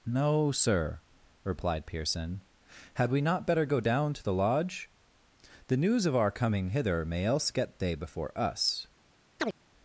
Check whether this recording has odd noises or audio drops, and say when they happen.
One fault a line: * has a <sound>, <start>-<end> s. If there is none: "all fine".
* has a chirp, 9.4-9.5 s